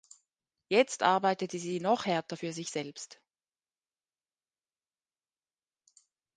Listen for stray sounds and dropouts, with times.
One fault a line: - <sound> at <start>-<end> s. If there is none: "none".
none